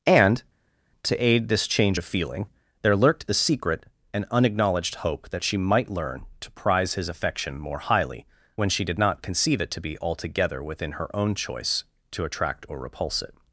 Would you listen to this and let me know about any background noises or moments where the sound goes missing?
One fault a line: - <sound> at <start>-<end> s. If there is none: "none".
none